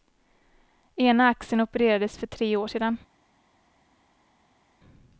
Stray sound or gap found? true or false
false